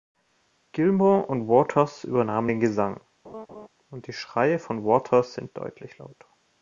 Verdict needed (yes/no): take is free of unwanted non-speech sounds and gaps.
no